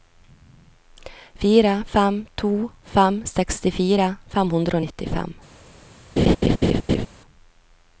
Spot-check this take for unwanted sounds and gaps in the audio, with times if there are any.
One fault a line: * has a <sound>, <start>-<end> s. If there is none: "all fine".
* has a laugh, 6.2-7.1 s